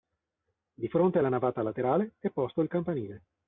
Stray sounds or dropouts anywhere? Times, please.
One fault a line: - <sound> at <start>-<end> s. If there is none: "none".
none